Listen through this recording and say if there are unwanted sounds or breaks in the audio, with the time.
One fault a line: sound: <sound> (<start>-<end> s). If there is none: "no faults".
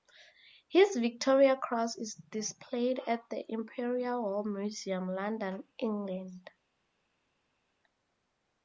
no faults